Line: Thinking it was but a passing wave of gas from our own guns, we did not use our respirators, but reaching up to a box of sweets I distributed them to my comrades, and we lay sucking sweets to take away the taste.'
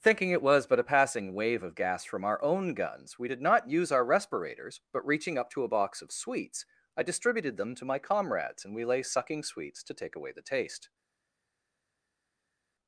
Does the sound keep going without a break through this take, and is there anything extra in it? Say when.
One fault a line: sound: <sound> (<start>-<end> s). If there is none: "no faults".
no faults